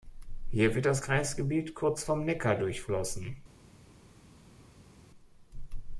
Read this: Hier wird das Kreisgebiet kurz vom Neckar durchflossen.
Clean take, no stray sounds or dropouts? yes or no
yes